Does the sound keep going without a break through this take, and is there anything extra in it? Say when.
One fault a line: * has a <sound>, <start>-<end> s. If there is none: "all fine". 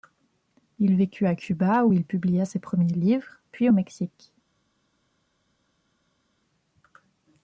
all fine